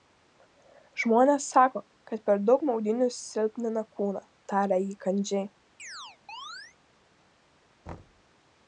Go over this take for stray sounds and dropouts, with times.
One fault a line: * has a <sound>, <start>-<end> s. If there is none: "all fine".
* has a chirp, 5.8-6.8 s
* has a thud, 7.9-8.2 s